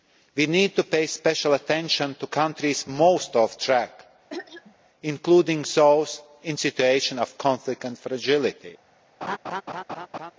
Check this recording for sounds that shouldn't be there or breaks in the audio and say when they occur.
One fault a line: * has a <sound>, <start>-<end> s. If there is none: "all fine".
* has a throat clearing, 4.3-4.8 s
* has a laugh, 9.2-10.3 s